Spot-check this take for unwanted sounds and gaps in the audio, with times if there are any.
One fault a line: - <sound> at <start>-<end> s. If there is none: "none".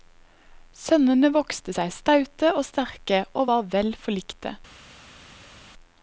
none